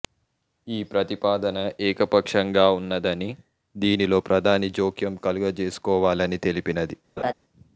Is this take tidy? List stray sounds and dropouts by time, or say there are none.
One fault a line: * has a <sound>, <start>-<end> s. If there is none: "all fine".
* has a laugh, 7.2-7.3 s